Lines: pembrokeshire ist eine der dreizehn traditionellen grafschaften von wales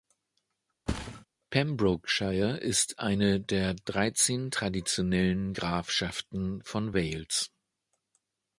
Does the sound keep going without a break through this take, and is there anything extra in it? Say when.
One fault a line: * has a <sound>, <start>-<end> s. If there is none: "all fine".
* has a thud, 0.9-1.3 s